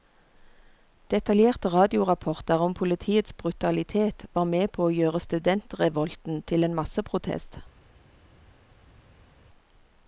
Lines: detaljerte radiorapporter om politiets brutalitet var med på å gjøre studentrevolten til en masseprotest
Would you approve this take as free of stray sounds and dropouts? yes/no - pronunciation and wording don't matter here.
yes